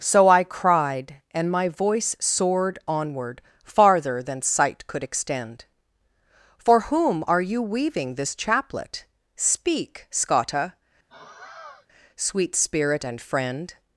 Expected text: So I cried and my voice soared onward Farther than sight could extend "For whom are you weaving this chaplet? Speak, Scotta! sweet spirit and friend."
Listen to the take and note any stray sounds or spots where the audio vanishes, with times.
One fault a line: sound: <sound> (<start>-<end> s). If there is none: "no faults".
sound: sigh (11.1-11.9 s)